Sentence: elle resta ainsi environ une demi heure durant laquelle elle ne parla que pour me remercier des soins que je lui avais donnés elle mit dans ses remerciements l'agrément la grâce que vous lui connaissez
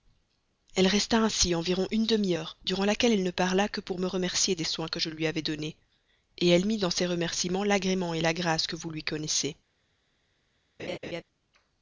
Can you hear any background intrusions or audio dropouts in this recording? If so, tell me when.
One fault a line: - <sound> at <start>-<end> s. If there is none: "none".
- laugh at 10.8-11.2 s